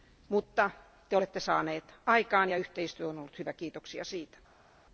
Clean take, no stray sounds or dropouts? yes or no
yes